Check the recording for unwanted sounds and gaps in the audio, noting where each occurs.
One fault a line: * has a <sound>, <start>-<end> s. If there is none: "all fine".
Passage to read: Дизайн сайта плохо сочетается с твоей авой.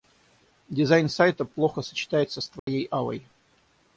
* has a dropout, 2.6-2.7 s